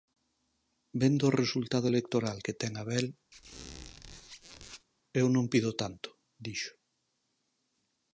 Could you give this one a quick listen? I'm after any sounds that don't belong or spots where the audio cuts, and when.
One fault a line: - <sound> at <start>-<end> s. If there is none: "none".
- squeak at 3.3-4.9 s